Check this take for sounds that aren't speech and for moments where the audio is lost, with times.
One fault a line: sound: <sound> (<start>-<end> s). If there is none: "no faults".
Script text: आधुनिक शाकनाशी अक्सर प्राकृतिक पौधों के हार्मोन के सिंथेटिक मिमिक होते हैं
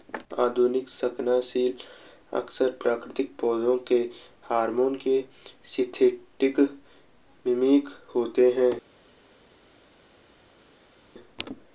no faults